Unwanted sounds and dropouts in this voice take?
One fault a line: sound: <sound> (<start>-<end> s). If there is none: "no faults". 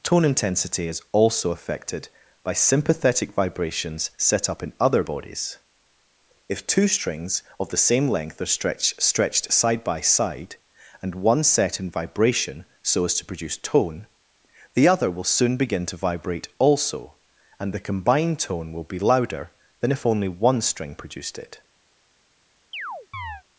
sound: chirp (22.7-23.4 s)